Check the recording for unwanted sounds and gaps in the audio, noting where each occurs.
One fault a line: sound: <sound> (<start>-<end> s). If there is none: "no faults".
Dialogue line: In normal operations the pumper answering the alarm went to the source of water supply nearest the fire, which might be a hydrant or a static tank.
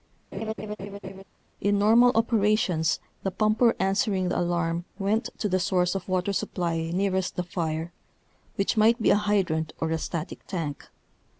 sound: laugh (0.3-1.2 s)